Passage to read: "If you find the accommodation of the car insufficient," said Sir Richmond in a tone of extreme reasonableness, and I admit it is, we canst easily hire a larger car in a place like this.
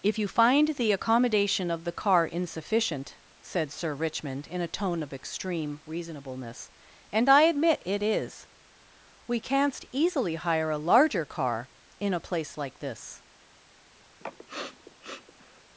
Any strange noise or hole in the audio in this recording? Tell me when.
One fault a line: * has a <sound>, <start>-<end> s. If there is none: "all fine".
* has a sniff, 14.2-15.6 s